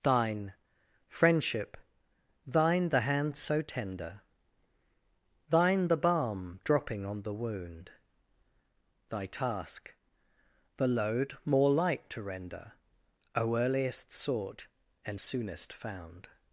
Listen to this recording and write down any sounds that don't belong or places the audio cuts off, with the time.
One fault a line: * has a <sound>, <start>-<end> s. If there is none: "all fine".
all fine